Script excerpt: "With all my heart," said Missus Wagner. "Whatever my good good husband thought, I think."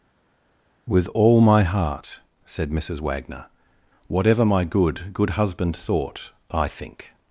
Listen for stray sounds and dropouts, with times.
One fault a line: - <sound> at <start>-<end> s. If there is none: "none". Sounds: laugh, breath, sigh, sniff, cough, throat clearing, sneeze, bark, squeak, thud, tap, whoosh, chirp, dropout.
none